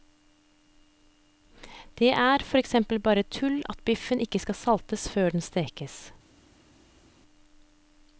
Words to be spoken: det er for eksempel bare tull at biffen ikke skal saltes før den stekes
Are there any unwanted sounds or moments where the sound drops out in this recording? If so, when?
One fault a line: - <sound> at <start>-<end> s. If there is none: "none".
none